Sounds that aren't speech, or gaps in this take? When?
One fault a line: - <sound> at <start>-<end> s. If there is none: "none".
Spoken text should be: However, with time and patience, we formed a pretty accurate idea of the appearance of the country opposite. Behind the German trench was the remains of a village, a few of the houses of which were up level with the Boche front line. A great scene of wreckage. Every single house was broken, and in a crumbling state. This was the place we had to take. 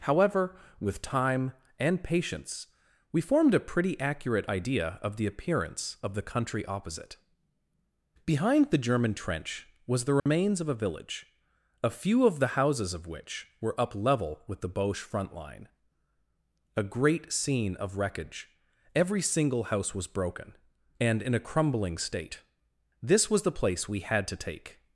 - dropout at 10.2-10.3 s